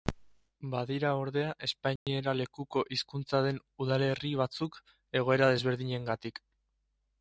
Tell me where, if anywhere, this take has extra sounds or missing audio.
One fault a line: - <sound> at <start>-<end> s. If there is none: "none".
- dropout at 2.0-2.1 s